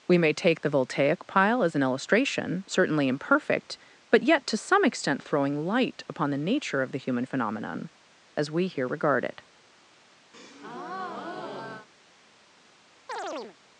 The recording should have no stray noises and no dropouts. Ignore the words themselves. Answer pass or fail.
fail